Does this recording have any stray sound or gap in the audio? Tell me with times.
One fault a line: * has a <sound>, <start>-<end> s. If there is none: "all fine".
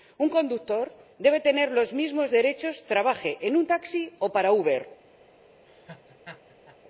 * has a laugh, 5.7-6.8 s